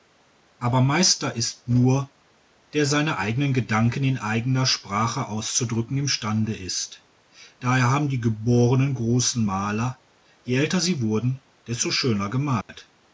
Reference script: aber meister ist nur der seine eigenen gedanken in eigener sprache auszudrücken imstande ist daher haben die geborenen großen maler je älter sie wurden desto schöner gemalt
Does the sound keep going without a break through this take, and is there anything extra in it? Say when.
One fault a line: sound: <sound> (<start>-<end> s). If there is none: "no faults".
sound: dropout (12.6-12.7 s)